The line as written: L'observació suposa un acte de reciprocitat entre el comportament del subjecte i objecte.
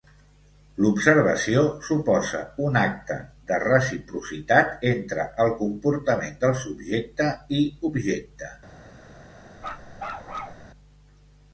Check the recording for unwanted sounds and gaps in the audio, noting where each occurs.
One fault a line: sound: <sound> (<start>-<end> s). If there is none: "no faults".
sound: bark (9.6-10.7 s)